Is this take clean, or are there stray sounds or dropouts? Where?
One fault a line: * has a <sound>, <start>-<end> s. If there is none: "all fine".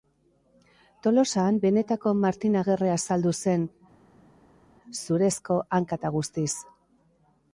all fine